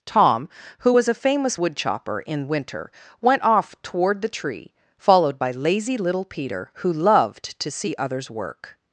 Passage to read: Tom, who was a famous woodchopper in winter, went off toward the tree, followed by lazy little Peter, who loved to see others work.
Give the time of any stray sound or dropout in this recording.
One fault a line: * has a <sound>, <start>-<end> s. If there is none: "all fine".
all fine